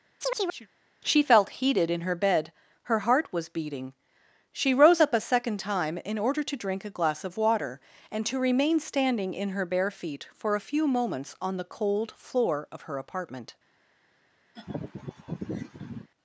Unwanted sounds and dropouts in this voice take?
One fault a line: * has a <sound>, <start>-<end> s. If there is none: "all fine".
* has a chirp, 0.2-0.7 s
* has a laugh, 14.6-16.1 s